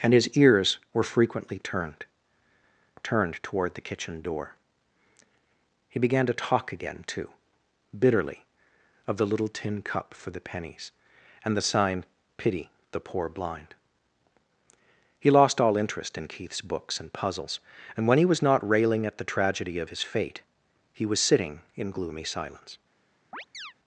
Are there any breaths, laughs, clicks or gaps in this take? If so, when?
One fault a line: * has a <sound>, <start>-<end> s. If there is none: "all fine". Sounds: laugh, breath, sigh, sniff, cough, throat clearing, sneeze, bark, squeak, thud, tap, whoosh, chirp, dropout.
* has a chirp, 23.3-23.7 s